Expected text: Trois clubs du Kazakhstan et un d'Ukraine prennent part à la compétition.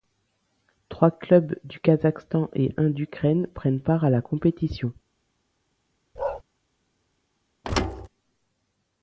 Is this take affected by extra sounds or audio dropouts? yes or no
yes